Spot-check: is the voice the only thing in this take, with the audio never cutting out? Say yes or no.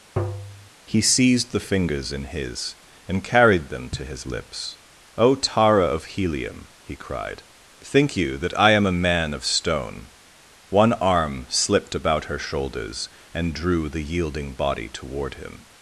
no